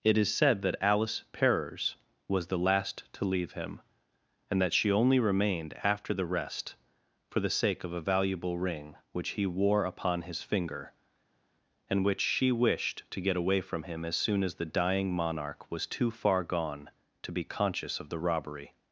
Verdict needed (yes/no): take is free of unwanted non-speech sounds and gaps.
yes